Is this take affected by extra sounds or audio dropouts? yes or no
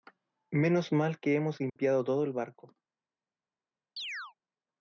yes